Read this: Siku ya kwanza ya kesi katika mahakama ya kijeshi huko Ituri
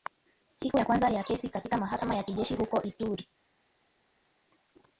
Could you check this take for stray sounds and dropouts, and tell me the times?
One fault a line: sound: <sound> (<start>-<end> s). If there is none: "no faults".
no faults